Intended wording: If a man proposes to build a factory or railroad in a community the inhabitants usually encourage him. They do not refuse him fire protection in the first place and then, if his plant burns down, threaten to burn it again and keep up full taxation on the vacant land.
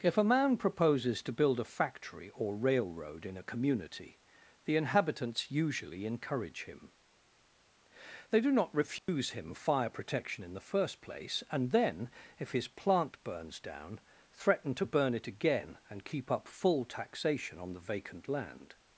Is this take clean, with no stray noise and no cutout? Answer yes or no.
no